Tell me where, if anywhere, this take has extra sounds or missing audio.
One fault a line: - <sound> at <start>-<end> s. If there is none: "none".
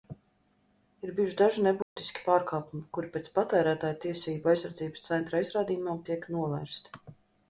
- dropout at 1.8-2.0 s